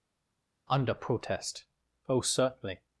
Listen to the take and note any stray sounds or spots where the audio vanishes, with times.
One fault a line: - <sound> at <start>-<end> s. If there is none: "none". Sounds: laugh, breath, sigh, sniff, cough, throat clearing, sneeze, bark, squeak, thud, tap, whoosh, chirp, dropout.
none